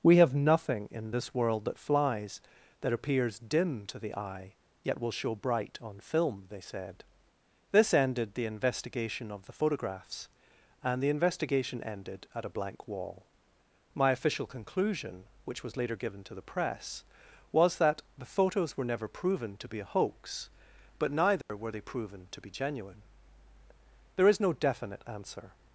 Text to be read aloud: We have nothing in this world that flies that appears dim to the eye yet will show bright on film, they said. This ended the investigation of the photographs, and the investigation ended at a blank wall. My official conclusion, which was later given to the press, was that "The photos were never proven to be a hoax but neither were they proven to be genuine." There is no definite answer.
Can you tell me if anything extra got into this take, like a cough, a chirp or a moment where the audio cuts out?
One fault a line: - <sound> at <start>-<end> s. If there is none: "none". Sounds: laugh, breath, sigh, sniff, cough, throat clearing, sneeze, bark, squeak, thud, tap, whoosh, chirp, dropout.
- dropout at 21.4-21.5 s